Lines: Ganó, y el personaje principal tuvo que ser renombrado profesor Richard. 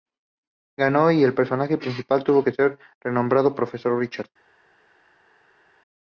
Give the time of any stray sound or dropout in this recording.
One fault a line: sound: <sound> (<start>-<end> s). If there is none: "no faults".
no faults